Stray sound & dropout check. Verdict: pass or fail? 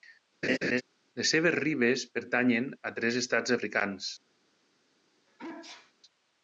fail